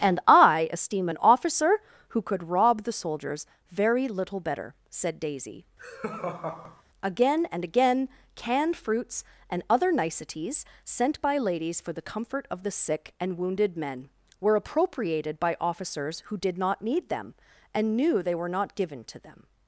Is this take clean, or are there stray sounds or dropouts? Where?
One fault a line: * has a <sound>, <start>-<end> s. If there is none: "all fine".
* has a laugh, 5.8-6.8 s